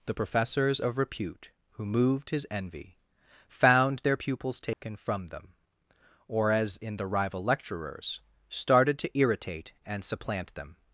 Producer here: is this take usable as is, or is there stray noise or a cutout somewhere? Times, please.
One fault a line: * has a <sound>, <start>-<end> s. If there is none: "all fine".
* has a dropout, 4.7-4.8 s